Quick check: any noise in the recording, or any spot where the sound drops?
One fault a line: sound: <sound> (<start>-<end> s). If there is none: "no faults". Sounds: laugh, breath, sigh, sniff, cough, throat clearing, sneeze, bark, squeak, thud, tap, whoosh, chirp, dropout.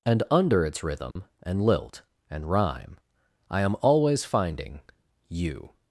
sound: dropout (1.1-1.2 s)